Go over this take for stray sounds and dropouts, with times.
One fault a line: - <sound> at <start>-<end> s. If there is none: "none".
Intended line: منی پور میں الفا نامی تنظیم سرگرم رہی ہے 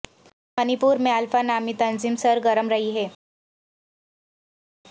none